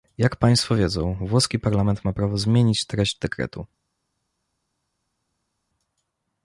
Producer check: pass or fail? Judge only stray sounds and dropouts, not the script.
pass